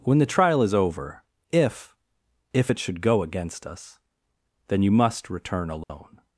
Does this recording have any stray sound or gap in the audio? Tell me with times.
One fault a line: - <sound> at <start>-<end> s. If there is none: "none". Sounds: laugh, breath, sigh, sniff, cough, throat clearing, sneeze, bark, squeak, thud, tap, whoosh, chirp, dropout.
- dropout at 5.8-5.9 s